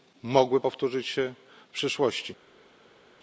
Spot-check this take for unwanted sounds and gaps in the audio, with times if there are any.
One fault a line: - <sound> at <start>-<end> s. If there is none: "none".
none